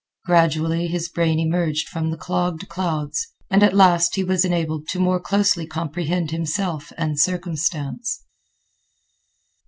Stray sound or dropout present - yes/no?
no